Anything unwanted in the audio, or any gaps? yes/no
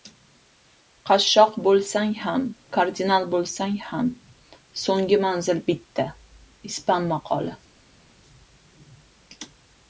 no